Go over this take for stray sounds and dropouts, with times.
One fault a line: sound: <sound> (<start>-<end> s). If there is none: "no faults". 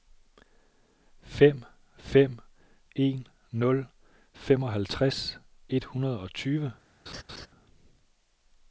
sound: laugh (7.1-7.5 s)